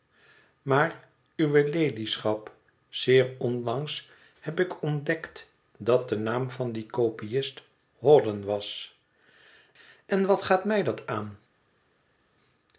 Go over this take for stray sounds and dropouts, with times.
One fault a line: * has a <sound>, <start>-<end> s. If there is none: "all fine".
all fine